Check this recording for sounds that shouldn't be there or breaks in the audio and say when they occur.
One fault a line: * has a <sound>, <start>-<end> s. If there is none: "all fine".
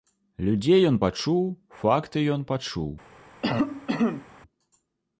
* has a cough, 3.4-4.3 s